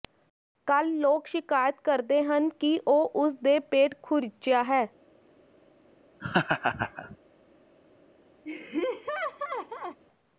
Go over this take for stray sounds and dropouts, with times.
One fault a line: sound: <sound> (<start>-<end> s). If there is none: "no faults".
sound: laugh (6.2-7.2 s)
sound: laugh (8.4-10.0 s)